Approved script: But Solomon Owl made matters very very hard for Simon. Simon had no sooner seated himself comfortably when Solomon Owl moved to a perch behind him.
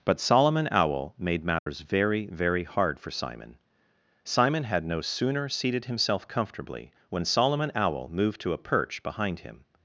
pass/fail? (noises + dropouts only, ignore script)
fail